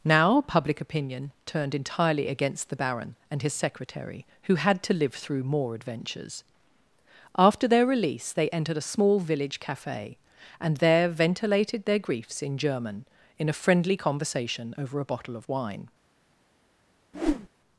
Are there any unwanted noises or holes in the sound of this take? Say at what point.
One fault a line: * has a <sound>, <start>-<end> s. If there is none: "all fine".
* has a whoosh, 17.1-17.5 s